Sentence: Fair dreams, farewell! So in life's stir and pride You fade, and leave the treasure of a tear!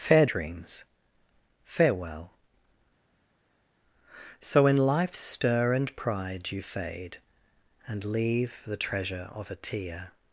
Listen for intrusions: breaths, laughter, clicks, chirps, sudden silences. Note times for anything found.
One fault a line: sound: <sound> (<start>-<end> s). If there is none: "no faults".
no faults